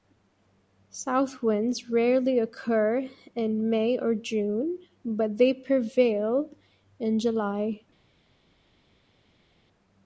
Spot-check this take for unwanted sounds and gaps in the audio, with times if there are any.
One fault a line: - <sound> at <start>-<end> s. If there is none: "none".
none